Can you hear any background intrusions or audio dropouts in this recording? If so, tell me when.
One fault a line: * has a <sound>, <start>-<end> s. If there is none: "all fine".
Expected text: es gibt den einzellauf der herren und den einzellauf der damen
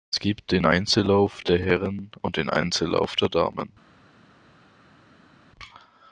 all fine